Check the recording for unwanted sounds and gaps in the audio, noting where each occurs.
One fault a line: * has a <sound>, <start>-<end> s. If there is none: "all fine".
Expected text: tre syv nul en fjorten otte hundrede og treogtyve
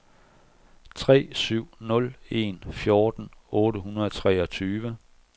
all fine